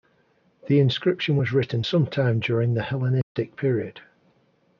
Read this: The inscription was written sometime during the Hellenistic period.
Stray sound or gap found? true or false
true